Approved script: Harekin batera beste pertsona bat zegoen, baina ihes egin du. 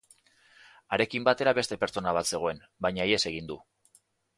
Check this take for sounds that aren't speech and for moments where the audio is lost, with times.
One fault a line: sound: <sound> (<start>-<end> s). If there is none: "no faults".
no faults